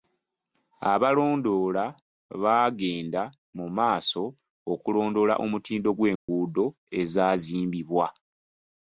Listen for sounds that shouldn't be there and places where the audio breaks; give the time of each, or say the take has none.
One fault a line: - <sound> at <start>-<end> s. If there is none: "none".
- dropout at 6.2-6.3 s